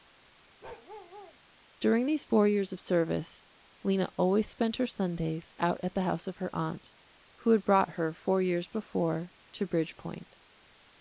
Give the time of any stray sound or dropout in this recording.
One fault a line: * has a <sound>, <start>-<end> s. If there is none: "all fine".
* has a bark, 0.6-1.4 s